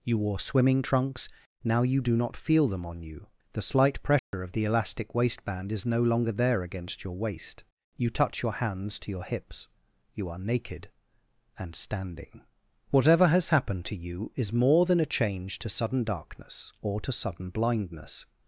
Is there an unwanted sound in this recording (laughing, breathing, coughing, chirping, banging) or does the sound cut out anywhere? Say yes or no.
yes